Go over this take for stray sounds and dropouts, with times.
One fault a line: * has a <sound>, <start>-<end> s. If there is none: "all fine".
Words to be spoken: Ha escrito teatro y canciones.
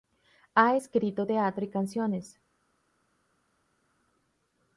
all fine